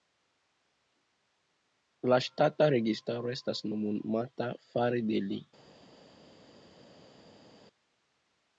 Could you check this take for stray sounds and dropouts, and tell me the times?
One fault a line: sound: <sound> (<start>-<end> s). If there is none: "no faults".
no faults